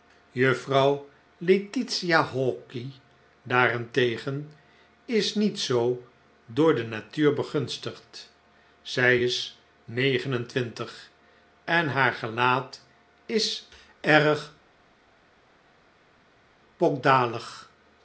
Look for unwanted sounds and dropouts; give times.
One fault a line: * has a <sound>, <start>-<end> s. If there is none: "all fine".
all fine